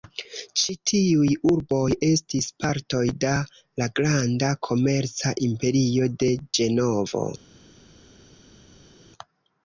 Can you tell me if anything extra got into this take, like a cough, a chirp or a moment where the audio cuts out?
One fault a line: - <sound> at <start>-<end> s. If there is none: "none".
none